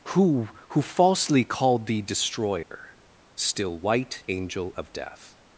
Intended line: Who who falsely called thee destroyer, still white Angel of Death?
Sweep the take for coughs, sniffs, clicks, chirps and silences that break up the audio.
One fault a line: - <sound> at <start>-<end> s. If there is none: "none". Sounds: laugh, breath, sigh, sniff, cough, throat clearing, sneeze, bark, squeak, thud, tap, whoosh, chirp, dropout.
- dropout at 2.6-2.7 s